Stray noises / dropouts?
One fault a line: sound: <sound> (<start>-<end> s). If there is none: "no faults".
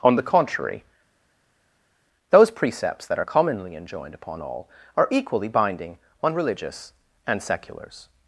no faults